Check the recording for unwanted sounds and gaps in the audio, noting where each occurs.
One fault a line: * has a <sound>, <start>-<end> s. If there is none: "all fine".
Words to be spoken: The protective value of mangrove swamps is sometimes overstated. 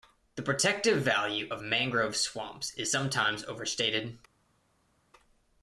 all fine